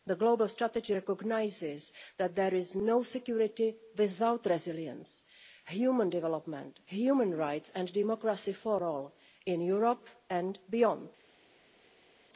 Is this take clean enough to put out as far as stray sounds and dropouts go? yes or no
yes